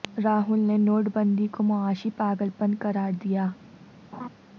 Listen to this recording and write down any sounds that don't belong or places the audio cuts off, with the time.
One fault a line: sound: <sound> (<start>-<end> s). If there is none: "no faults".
sound: laugh (4.1-4.3 s)